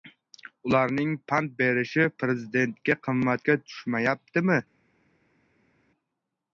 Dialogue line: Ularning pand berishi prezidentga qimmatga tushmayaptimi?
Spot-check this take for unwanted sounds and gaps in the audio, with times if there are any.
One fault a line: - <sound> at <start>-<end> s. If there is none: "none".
none